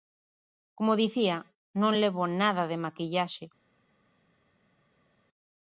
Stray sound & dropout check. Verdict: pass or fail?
pass